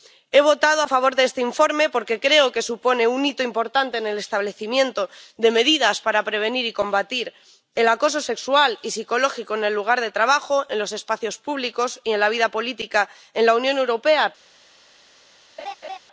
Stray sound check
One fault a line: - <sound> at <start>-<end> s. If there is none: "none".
- laugh at 15.6-16.0 s